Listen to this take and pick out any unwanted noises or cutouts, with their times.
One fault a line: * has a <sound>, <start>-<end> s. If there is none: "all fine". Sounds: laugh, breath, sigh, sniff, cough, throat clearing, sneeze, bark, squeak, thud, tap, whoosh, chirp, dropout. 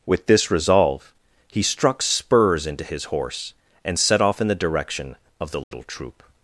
* has a dropout, 5.6-5.7 s